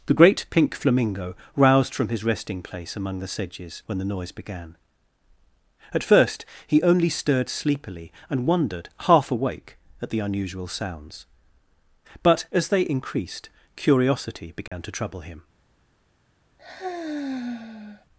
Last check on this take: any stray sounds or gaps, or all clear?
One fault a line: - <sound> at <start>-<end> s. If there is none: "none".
- dropout at 14.7-14.7 s
- sigh at 16.6-18.1 s